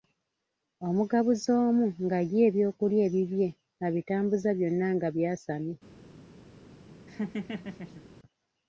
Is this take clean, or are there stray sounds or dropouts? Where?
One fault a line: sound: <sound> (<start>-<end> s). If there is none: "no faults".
sound: laugh (7.1-8.0 s)